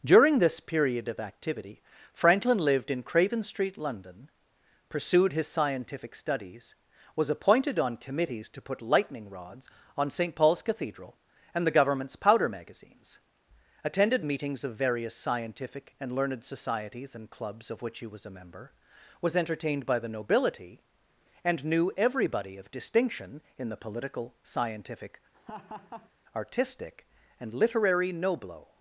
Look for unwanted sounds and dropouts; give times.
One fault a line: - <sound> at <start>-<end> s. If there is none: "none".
- laugh at 25.3-26.1 s